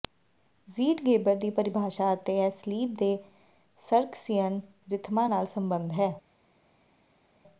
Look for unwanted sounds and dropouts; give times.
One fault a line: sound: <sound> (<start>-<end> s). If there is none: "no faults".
no faults